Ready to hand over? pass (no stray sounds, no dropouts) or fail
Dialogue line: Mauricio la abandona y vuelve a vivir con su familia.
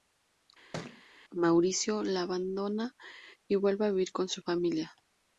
fail